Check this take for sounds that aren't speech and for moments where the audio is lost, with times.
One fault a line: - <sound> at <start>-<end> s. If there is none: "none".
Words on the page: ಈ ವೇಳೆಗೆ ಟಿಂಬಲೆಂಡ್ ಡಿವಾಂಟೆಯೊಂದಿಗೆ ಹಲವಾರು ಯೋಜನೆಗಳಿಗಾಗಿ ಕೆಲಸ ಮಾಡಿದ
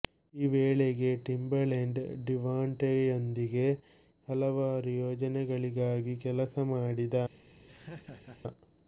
- laugh at 7.7-8.4 s